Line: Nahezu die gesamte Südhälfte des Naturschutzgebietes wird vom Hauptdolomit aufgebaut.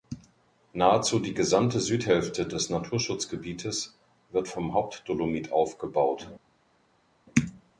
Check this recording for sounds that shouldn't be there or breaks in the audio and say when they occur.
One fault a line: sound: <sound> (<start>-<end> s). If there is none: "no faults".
no faults